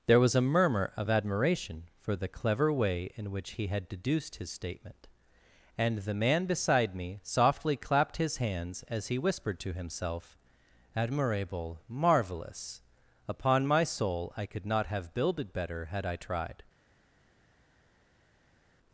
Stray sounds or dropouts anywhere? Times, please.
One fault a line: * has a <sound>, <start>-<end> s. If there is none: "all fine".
all fine